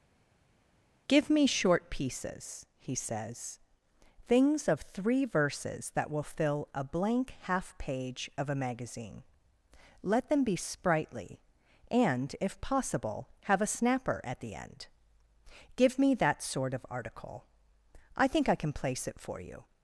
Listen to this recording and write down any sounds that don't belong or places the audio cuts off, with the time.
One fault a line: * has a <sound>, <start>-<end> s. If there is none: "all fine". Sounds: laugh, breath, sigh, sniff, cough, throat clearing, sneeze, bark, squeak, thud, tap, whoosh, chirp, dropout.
all fine